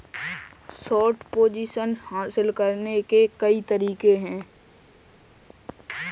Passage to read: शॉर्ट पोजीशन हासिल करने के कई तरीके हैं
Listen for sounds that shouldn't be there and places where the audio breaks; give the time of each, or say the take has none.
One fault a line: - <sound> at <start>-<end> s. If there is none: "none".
none